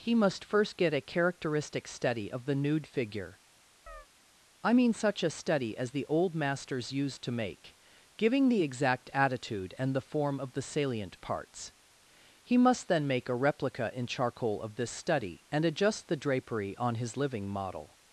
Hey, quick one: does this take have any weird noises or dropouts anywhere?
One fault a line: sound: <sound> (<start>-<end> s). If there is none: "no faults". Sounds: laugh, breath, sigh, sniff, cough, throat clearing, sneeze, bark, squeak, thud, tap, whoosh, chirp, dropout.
sound: chirp (3.9-4.1 s)